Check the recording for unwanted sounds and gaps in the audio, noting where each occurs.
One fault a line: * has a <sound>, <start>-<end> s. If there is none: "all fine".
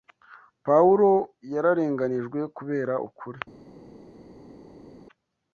all fine